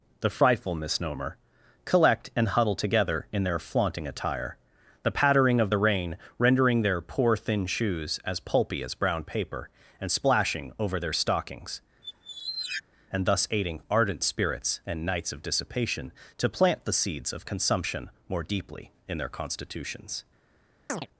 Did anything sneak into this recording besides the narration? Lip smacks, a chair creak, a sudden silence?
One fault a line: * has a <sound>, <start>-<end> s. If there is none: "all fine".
* has a squeak, 12.0-12.8 s
* has a chirp, 20.9-21.1 s